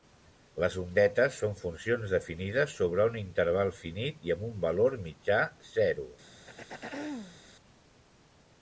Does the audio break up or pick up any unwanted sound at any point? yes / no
yes